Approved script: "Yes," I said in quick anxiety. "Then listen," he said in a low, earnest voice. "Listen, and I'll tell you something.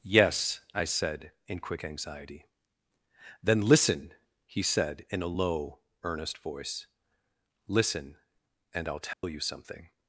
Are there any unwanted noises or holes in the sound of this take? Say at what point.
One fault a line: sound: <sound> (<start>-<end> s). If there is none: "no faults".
sound: dropout (9.1-9.2 s)